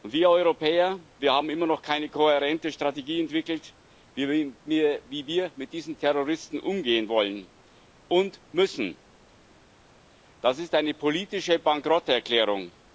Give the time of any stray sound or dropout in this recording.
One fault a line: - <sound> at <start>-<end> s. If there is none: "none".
none